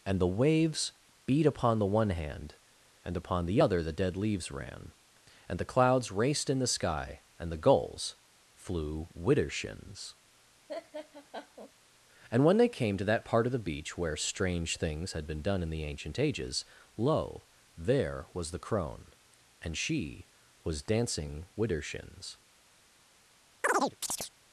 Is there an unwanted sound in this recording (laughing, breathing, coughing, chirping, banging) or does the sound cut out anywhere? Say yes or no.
yes